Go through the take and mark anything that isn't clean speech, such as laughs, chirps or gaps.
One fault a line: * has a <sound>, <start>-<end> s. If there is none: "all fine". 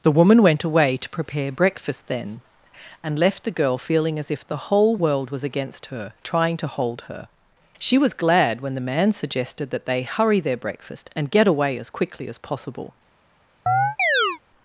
* has a chirp, 13.7-14.4 s